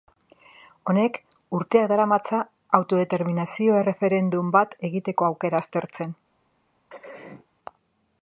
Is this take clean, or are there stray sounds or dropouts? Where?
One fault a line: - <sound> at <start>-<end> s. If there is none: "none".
- throat clearing at 6.9-7.5 s